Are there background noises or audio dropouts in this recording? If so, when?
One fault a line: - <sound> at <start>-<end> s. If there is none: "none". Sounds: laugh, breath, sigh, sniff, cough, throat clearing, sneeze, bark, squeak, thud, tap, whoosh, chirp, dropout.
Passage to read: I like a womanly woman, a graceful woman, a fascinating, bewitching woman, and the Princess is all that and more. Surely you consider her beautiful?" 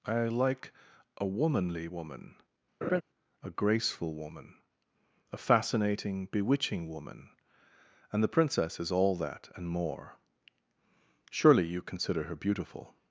- laugh at 2.8-3.0 s